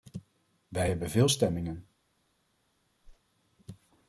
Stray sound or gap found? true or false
true